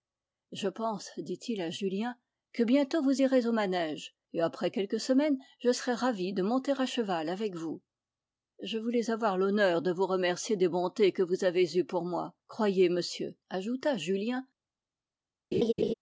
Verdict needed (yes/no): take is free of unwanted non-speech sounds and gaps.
no